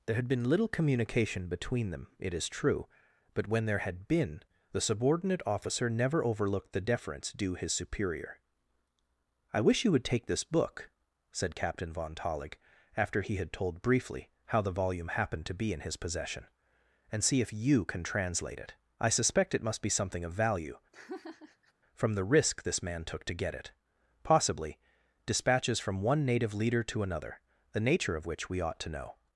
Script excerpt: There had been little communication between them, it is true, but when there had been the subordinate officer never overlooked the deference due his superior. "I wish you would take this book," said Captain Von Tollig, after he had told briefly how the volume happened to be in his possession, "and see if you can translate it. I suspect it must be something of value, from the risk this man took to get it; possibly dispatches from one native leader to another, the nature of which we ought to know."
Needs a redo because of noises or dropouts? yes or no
yes